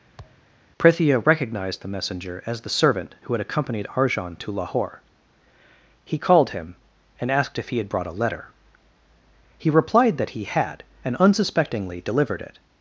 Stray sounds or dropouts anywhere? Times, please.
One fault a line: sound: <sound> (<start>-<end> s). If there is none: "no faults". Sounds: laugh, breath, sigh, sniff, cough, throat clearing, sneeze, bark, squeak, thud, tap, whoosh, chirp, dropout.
sound: thud (0.2-0.5 s)